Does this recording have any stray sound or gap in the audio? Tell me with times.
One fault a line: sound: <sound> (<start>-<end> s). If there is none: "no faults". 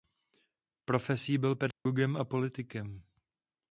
sound: dropout (1.7-1.9 s)